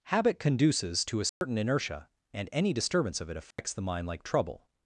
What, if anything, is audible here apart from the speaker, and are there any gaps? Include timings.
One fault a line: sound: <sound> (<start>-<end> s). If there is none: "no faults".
sound: dropout (1.3-1.4 s)
sound: dropout (3.5-3.6 s)